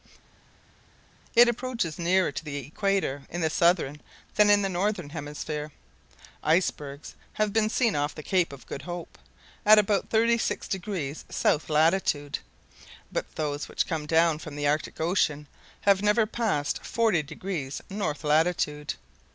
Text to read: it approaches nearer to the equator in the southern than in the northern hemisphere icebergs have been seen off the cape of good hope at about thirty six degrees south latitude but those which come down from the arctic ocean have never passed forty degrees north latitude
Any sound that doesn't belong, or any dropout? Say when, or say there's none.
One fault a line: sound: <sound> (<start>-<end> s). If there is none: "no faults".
no faults